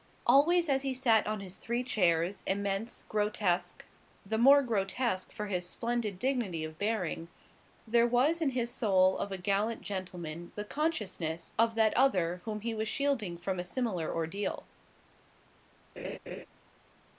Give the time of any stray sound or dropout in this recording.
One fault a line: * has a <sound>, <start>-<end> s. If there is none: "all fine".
* has a laugh, 16.0-16.5 s